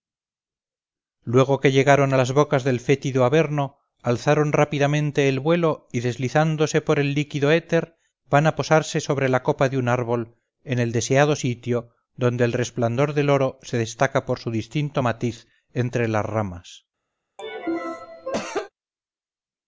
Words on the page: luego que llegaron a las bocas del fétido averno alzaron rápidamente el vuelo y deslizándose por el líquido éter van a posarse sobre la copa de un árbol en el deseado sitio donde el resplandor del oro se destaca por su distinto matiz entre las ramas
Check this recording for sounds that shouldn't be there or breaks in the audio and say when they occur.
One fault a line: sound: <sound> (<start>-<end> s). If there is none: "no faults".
sound: cough (17.4-18.7 s)